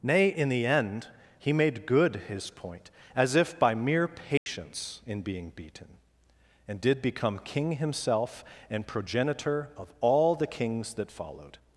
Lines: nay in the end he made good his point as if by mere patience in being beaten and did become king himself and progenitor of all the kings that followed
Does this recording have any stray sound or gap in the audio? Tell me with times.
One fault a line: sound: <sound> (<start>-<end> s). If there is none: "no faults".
sound: dropout (4.4-4.5 s)